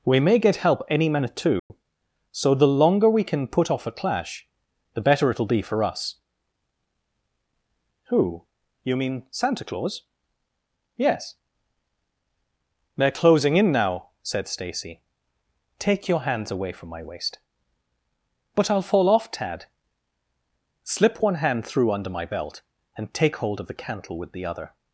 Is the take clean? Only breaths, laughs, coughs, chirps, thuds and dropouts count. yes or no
no